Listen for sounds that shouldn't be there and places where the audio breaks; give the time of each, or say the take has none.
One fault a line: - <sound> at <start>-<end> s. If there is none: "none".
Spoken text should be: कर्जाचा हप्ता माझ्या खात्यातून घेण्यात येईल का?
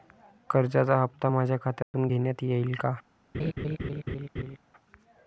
- dropout at 1.8-1.9 s
- laugh at 3.3-4.6 s